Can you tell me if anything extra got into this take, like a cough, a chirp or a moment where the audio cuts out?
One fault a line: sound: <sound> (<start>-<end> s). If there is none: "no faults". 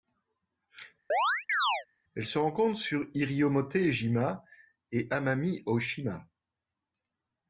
sound: chirp (1.1-1.9 s)